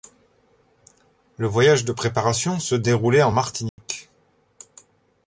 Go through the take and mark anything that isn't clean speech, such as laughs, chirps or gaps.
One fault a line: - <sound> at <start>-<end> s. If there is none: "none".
- dropout at 3.7-3.8 s